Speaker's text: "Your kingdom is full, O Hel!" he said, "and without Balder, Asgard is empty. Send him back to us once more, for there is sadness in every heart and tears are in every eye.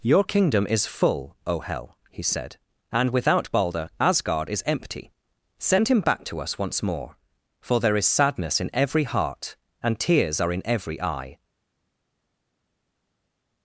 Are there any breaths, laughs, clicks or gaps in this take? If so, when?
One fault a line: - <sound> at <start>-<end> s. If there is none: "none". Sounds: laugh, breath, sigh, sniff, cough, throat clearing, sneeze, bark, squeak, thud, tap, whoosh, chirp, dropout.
none